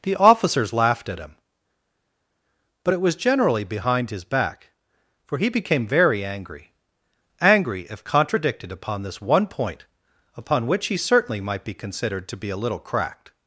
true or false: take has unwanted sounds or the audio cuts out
false